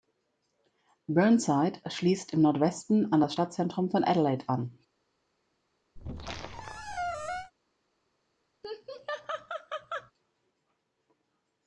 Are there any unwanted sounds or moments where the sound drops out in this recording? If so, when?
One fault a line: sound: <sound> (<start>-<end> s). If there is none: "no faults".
sound: squeak (6.0-7.5 s)
sound: laugh (8.6-10.1 s)